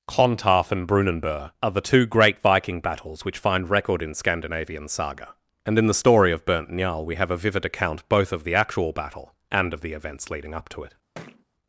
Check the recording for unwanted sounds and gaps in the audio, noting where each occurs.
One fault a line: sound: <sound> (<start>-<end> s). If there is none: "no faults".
sound: thud (11.1-11.4 s)